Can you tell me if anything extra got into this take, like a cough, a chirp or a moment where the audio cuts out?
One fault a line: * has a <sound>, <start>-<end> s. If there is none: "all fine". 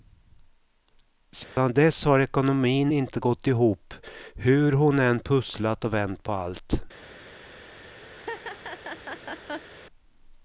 * has a dropout, 1.4-1.6 s
* has a laugh, 8.1-9.7 s